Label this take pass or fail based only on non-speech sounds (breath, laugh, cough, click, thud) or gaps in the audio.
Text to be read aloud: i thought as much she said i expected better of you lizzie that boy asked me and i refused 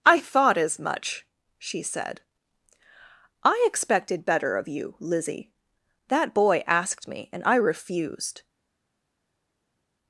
pass